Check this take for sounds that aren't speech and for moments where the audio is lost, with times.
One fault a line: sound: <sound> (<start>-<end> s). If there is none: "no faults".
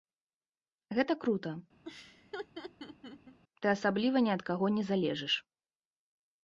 sound: laugh (1.8-3.4 s)